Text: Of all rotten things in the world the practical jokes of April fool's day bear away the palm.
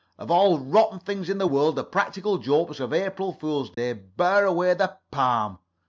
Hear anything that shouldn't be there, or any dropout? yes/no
yes